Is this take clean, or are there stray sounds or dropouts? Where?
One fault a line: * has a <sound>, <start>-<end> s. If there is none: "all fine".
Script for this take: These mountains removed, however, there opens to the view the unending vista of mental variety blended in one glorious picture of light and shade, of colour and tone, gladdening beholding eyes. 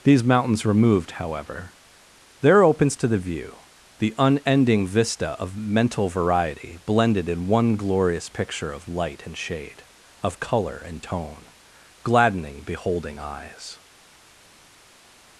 all fine